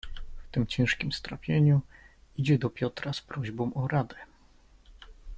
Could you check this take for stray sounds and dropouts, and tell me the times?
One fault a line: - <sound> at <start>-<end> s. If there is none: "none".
none